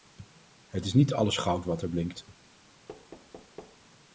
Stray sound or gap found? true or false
true